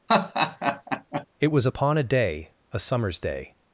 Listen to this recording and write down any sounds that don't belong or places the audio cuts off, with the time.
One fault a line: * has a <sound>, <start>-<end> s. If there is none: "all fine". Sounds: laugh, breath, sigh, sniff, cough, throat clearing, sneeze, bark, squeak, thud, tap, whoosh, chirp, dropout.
* has a laugh, 0.1-1.3 s